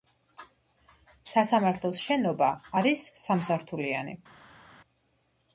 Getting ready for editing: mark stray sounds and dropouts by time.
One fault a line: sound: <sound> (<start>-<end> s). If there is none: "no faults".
no faults